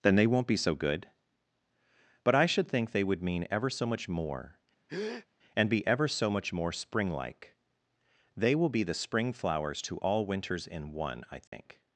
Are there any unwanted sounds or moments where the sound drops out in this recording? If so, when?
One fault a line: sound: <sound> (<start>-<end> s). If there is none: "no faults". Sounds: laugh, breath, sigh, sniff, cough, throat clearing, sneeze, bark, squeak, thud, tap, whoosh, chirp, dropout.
sound: breath (4.9-5.3 s)
sound: dropout (11.5-11.5 s)